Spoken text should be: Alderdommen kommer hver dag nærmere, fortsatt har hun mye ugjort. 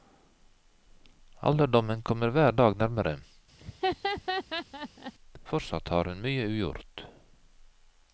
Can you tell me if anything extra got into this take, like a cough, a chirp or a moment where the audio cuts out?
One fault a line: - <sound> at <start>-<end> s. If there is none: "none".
- laugh at 3.6-5.1 s